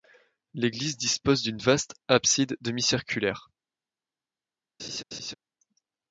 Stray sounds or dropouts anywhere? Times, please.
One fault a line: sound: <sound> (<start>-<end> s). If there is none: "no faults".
sound: laugh (4.8-5.3 s)